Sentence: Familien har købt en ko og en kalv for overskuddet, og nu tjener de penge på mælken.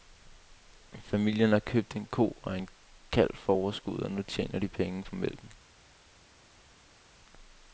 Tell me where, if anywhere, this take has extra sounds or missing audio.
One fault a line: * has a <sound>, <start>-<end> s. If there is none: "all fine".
all fine